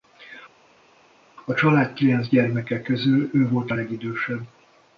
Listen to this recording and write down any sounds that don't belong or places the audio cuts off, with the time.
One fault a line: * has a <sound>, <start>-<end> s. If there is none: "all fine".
all fine